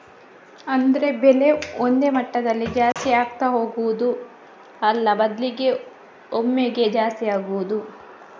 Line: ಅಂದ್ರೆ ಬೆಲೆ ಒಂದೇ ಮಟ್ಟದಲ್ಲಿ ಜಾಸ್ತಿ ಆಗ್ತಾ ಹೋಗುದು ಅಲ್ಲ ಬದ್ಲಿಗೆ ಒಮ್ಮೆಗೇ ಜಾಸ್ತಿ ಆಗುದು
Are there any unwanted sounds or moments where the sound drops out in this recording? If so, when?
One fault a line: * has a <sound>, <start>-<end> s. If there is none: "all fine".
* has a dropout, 2.9-3.0 s